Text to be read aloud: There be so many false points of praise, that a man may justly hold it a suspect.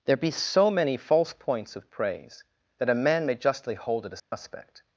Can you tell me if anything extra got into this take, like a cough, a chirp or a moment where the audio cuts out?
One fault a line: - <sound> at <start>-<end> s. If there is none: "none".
- dropout at 4.2-4.3 s